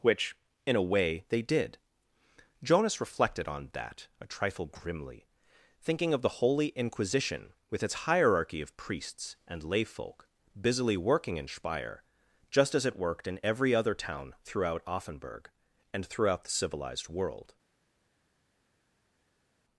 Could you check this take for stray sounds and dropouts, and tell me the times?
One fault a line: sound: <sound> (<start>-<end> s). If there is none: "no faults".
no faults